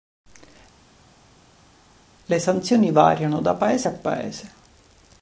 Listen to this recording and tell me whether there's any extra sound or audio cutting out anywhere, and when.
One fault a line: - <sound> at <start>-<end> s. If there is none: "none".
none